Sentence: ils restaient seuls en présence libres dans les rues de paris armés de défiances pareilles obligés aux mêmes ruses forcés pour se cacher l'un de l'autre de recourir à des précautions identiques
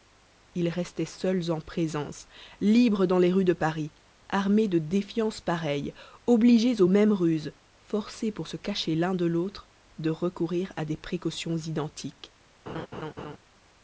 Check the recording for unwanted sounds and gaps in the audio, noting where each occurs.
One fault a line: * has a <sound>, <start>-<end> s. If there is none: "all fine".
* has a laugh, 12.7-13.4 s